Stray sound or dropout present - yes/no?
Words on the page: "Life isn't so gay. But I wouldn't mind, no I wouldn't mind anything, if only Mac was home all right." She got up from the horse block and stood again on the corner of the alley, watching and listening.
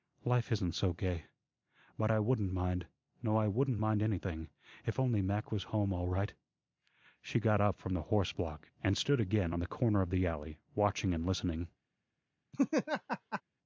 yes